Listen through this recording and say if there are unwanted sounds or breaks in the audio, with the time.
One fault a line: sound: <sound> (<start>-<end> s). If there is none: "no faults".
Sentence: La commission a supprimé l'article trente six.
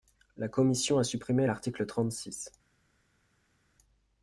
no faults